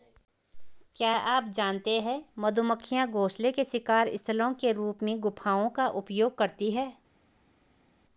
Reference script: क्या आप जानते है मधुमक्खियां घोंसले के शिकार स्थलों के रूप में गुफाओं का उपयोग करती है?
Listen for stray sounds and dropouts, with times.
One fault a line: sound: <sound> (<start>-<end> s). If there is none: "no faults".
no faults